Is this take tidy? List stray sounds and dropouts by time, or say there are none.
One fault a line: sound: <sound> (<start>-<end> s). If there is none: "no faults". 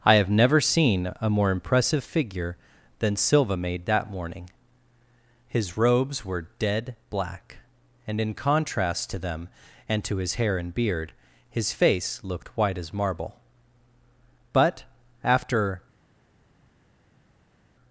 no faults